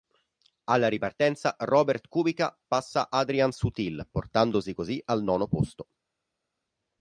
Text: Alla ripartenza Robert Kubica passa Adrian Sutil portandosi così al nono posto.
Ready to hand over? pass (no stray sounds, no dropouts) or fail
pass